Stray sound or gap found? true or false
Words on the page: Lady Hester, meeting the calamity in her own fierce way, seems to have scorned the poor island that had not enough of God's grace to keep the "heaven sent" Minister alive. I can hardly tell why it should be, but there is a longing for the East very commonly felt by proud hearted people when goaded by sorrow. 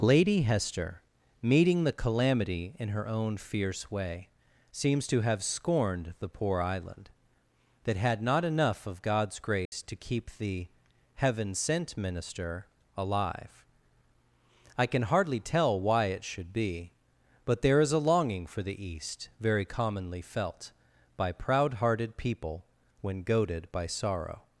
true